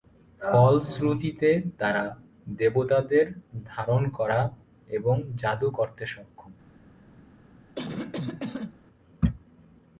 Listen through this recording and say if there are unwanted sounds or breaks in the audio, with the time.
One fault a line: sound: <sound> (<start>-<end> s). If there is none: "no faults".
sound: cough (7.8-8.7 s)